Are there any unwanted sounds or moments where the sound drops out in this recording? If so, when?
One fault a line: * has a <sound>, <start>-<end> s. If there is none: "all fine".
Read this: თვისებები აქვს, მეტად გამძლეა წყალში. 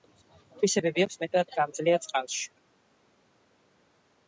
all fine